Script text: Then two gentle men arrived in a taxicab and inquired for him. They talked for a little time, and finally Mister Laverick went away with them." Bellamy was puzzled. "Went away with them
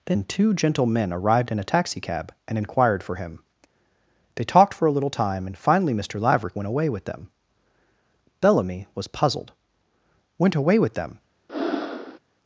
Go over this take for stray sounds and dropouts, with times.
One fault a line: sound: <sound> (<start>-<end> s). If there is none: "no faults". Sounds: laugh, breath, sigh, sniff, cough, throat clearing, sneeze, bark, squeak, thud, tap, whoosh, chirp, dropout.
sound: breath (11.5-12.2 s)